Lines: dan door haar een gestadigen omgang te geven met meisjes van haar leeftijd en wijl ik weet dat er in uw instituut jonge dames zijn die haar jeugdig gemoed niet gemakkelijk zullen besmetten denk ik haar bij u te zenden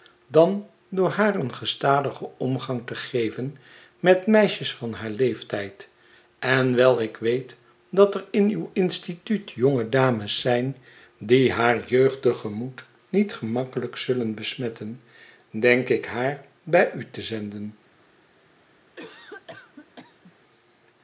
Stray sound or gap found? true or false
true